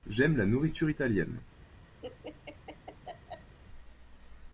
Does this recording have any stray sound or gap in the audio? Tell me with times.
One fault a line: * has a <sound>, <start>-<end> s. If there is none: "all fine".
* has a laugh, 2.0-3.6 s